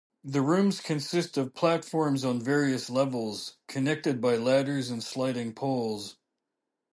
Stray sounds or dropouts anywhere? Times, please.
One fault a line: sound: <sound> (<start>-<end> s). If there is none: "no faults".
no faults